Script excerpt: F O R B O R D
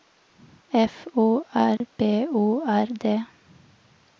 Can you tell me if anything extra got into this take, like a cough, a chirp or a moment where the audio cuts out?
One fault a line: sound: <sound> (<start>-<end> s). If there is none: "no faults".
sound: dropout (1.8-1.8 s)